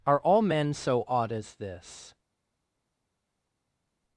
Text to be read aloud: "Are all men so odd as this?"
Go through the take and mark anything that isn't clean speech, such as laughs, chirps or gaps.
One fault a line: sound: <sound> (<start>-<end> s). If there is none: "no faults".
no faults